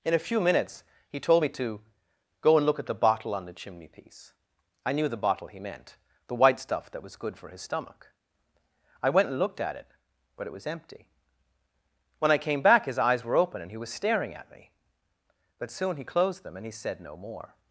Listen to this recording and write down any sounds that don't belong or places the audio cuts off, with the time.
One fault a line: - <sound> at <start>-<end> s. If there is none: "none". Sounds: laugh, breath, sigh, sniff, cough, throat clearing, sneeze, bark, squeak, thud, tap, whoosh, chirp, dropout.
none